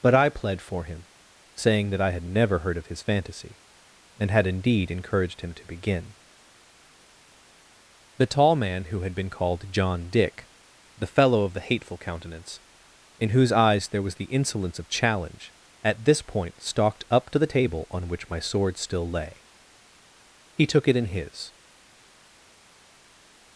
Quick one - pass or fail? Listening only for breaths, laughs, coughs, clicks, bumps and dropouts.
pass